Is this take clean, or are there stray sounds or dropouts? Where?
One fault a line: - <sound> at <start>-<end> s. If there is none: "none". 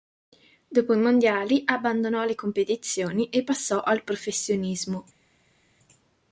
none